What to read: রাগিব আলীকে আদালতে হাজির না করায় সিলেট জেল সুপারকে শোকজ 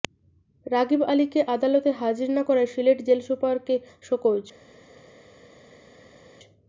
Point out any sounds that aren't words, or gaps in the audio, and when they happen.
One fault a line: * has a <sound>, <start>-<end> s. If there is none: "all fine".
all fine